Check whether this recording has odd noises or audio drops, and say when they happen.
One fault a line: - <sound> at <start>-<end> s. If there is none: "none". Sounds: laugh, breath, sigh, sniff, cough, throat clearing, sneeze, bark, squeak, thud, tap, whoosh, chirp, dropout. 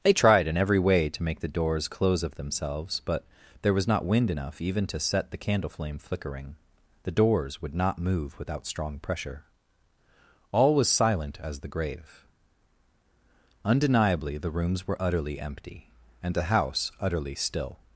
none